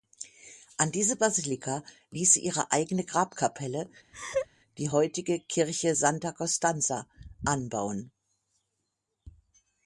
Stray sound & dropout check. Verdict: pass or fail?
fail